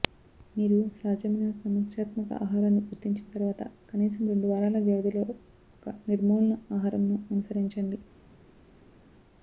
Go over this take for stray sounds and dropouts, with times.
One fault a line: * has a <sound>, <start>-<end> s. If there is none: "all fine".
all fine